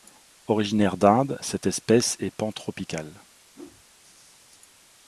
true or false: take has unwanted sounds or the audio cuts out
true